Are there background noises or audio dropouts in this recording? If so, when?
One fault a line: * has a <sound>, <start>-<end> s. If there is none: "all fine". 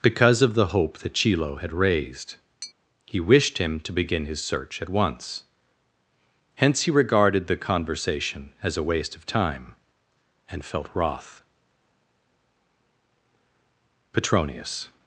* has a tap, 2.6-2.7 s